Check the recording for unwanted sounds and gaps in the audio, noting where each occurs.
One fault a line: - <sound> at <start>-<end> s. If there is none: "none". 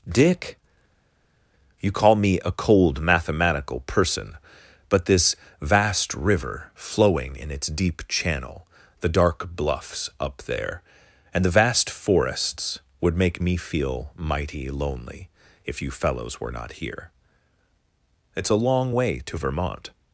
none